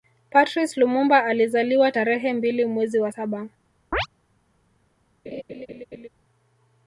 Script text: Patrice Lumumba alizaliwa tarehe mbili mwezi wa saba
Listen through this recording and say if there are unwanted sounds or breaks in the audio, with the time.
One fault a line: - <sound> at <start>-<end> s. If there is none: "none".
- chirp at 3.9-4.1 s
- laugh at 5.3-6.1 s